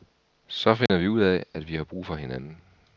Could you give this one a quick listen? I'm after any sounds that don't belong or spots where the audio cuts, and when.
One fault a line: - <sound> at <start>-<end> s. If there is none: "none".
- dropout at 0.9-0.9 s